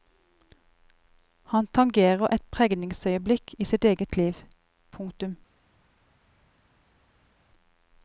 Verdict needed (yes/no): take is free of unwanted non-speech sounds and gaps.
yes